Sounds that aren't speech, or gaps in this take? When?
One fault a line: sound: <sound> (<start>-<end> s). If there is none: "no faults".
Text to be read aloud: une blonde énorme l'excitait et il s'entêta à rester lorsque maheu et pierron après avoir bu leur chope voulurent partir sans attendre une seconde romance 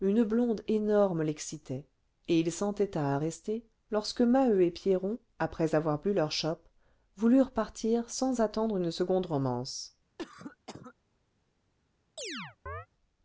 sound: cough (10.2-10.9 s)
sound: chirp (12.2-12.9 s)